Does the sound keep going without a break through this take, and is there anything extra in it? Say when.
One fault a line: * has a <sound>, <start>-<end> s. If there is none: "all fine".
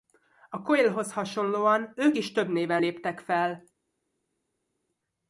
all fine